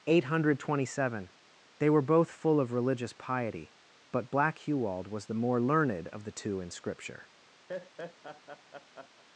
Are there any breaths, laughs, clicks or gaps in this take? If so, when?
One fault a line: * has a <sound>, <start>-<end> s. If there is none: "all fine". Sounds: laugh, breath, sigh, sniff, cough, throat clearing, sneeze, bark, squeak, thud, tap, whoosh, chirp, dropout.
* has a laugh, 7.7-9.2 s